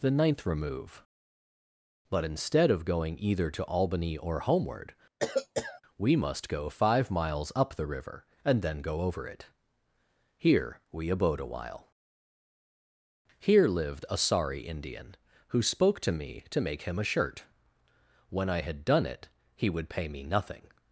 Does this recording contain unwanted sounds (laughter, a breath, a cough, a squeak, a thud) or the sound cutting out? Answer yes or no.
yes